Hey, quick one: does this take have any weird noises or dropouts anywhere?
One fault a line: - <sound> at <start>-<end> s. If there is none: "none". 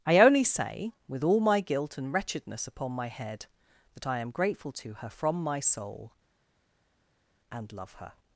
none